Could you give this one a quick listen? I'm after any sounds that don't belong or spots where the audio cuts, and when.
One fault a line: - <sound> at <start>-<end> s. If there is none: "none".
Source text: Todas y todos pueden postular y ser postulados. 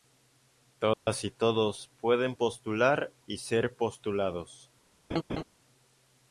- dropout at 0.9-1.1 s
- laugh at 5.1-5.4 s